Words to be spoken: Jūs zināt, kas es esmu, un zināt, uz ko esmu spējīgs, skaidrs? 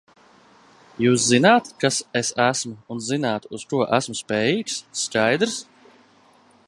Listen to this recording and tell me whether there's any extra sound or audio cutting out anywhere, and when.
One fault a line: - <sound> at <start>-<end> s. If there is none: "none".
none